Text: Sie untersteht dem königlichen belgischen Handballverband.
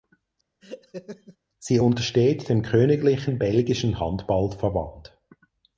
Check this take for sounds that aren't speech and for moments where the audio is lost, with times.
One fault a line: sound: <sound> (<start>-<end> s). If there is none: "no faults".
sound: laugh (0.6-1.4 s)